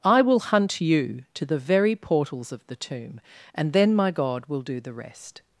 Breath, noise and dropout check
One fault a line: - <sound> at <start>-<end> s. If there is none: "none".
none